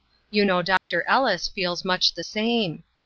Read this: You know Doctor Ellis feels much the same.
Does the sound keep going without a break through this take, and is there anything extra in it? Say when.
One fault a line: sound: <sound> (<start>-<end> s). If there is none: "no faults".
sound: dropout (0.8-0.9 s)